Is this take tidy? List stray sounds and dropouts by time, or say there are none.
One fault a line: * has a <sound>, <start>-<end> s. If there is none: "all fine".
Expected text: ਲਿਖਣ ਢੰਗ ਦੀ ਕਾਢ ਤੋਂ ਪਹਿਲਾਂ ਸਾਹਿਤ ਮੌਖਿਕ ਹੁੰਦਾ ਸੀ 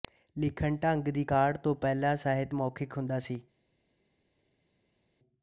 all fine